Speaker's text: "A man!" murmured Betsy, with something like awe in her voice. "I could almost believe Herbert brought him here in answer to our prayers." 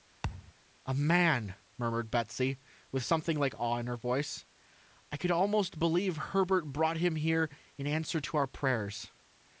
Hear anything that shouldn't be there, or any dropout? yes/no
yes